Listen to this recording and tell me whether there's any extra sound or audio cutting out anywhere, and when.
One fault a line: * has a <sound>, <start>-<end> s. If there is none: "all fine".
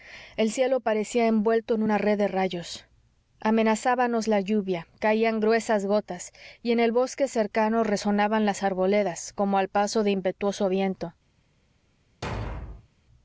* has a thud, 12.2-12.9 s